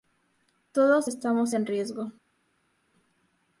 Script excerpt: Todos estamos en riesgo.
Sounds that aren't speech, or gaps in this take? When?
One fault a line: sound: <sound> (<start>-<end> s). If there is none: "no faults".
no faults